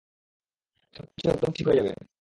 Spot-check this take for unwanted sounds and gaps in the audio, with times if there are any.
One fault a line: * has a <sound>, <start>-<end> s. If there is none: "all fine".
* has a dropout, 1.1-1.2 s